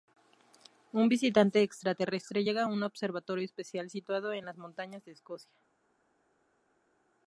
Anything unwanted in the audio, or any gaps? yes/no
no